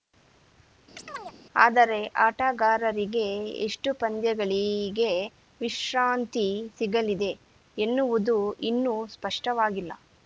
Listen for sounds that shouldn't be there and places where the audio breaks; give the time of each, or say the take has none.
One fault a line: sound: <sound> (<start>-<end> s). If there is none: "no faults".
sound: chirp (1.0-1.3 s)